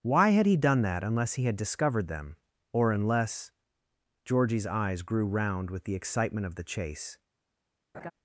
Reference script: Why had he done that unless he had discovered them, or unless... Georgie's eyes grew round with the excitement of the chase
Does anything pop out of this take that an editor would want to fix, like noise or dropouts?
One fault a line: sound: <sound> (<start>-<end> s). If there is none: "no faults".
sound: laugh (7.9-8.1 s)